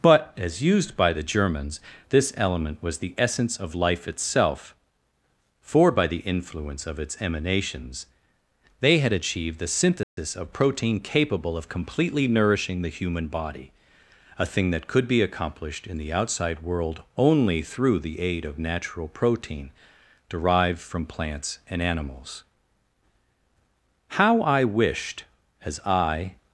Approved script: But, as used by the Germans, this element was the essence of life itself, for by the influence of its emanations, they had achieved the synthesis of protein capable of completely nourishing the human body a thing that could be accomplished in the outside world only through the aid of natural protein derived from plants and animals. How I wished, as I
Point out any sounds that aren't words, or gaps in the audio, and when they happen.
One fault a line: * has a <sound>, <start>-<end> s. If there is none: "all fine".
* has a dropout, 10.0-10.2 s